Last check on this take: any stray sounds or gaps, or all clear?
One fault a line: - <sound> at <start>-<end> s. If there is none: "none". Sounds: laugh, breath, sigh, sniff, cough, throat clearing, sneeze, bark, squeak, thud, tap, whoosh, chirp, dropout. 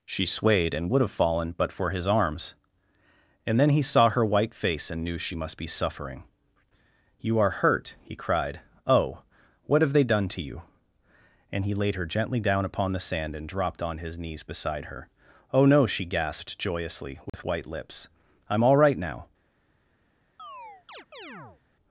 - dropout at 17.3-17.3 s
- chirp at 20.4-21.6 s